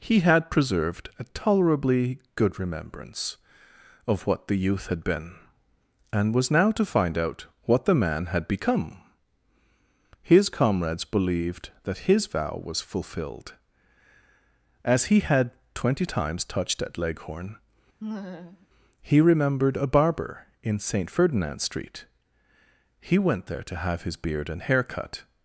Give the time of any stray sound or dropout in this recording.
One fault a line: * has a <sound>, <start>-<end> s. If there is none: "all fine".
* has a laugh, 18.0-18.7 s